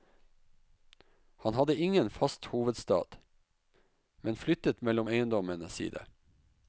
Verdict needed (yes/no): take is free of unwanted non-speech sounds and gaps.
yes